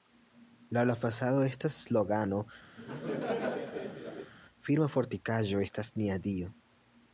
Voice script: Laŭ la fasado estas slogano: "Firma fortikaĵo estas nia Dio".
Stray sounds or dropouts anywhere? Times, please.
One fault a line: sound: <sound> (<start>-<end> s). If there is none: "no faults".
sound: laugh (2.8-4.3 s)